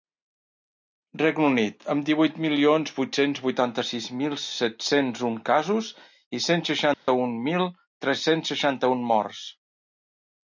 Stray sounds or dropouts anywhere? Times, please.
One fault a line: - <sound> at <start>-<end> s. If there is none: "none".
- dropout at 6.9-7.1 s